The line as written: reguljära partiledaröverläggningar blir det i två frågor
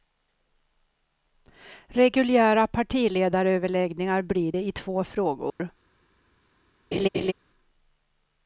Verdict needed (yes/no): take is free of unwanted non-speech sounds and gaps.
no